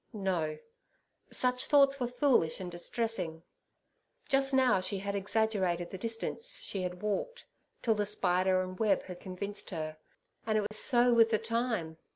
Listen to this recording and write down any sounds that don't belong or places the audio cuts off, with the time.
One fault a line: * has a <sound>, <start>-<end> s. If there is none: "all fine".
* has a dropout, 10.7-10.7 s